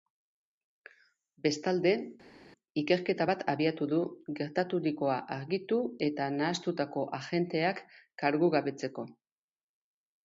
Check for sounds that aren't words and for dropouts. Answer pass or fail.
pass